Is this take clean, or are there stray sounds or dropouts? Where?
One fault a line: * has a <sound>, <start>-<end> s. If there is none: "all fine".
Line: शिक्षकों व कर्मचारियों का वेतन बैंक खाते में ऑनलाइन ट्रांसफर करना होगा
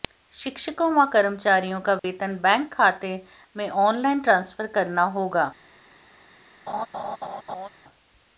* has a dropout, 2.0-2.0 s
* has a laugh, 6.7-7.7 s